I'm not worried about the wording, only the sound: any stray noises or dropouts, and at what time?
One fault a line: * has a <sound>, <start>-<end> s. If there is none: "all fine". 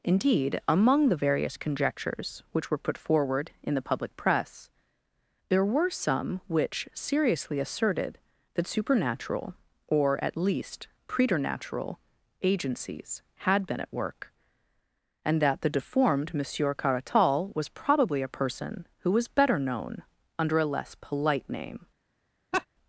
* has a laugh, 22.5-22.7 s